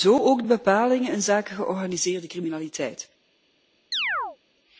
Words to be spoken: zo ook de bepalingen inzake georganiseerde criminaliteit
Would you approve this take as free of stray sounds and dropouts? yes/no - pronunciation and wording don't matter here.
no